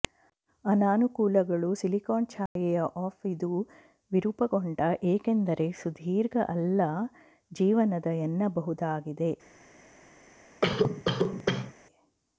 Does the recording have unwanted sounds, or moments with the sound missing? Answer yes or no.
yes